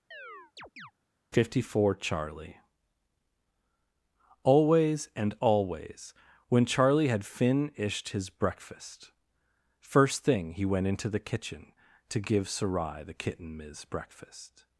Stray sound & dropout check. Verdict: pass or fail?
fail